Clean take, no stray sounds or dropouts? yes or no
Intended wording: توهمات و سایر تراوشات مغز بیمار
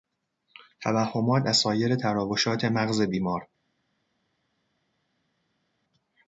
yes